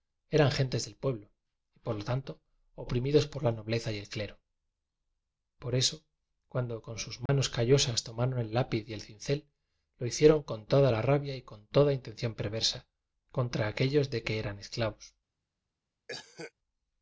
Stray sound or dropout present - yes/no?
yes